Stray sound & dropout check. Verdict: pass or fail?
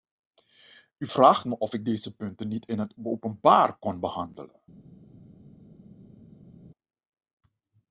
pass